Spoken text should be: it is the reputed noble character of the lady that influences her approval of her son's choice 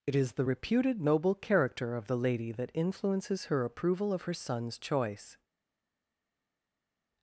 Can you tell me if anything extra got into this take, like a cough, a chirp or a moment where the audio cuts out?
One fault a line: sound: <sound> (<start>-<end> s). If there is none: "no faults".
no faults